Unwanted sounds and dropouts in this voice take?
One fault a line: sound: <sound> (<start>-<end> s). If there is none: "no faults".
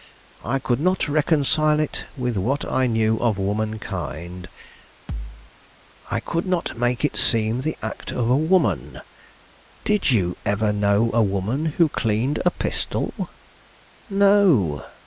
sound: thud (5.1-5.5 s)